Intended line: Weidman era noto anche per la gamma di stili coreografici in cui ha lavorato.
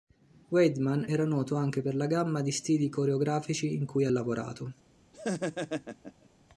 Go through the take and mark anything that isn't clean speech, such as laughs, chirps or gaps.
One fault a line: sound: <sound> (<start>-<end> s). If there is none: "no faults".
sound: laugh (5.1-6.3 s)